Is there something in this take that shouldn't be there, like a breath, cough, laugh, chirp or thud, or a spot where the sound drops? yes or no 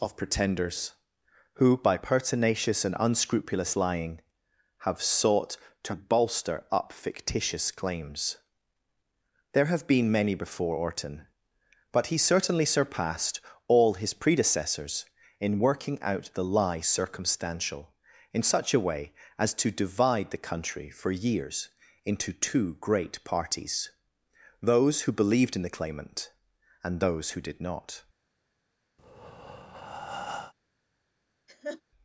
yes